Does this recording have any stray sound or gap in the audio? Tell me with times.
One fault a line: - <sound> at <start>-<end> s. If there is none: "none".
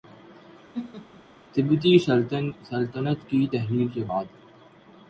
- laugh at 0.7-1.2 s